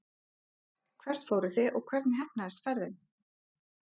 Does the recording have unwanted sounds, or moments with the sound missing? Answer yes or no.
no